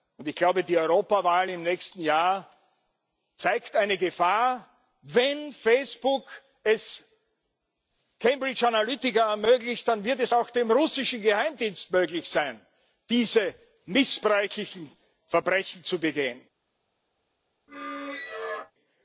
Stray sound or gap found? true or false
true